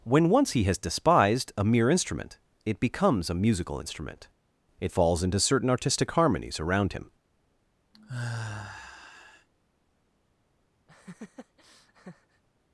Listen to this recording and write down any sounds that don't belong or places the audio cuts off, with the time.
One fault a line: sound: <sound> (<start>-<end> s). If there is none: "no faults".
sound: sigh (7.9-9.5 s)
sound: laugh (10.9-12.4 s)